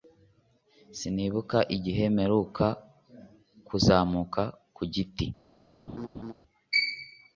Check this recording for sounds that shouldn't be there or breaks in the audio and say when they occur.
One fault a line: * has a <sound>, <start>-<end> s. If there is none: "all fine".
* has a laugh, 5.9-6.3 s